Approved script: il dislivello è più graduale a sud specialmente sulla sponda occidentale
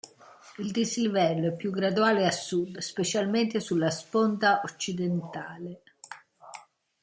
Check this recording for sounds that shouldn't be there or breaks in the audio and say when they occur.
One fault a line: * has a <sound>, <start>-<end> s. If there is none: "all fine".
all fine